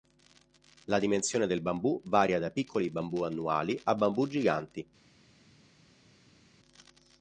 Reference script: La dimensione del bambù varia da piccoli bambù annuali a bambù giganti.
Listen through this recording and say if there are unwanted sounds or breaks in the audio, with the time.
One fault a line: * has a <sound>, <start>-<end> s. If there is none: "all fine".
all fine